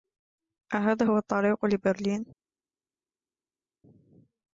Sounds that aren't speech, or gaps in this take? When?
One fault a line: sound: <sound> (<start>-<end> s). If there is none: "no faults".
no faults